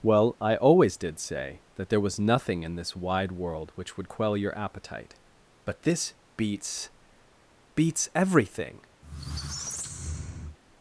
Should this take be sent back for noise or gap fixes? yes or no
yes